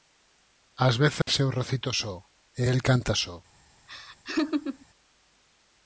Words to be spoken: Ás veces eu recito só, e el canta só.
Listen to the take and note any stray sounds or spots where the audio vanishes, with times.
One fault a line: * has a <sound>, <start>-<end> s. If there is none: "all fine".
* has a dropout, 1.2-1.3 s
* has a laugh, 3.9-4.9 s